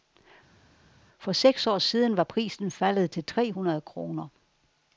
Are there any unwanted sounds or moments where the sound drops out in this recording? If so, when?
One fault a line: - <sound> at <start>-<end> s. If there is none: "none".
none